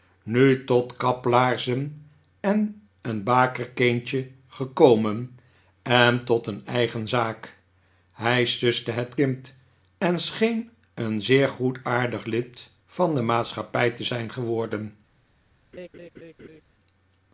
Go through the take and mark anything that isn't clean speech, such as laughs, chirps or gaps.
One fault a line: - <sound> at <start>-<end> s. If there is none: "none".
- laugh at 15.7-16.6 s